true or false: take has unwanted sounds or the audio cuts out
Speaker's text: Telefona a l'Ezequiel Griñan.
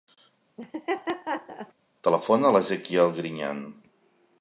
true